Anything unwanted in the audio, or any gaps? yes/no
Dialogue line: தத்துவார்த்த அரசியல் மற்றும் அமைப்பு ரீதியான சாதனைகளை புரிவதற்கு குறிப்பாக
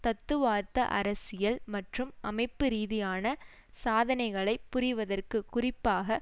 no